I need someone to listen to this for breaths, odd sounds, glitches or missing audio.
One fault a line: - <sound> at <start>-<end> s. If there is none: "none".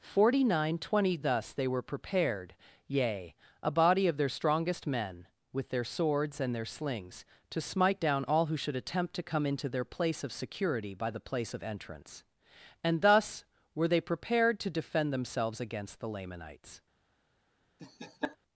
- laugh at 17.8-18.4 s